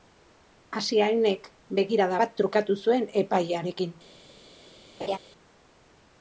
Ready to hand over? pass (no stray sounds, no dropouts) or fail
fail